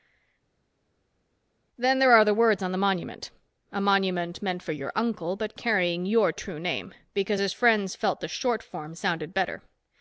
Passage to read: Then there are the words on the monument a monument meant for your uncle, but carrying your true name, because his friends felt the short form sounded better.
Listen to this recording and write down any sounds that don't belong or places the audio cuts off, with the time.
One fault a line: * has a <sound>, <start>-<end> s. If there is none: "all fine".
all fine